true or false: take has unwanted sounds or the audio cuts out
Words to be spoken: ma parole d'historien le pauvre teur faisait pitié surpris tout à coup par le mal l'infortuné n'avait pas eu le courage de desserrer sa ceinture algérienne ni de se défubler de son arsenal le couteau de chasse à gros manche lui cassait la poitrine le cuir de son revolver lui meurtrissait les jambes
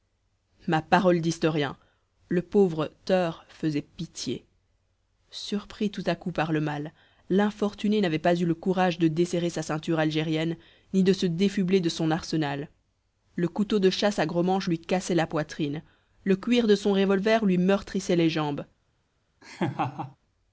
true